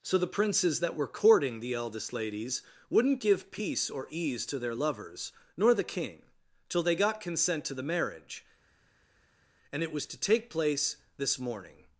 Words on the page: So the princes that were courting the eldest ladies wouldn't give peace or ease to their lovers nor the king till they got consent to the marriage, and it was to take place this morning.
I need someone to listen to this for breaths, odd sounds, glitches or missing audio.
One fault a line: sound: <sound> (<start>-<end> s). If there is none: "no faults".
no faults